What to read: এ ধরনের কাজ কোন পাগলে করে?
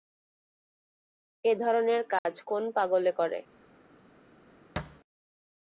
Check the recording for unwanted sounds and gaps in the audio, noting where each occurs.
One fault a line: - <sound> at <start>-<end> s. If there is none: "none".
- dropout at 2.2-2.3 s
- thud at 4.8-5.0 s